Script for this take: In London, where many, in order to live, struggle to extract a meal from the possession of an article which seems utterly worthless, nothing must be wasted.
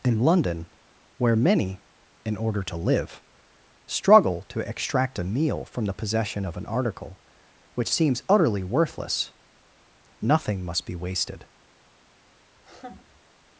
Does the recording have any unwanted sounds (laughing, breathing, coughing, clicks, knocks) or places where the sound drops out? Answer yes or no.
yes